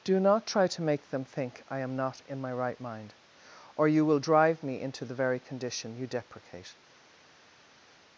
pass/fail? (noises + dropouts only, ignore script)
pass